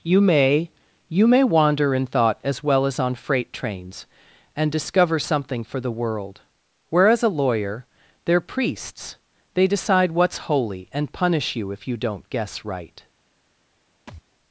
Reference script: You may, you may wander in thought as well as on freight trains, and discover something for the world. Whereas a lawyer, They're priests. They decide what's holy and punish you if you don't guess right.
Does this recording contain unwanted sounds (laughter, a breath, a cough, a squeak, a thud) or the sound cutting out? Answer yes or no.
yes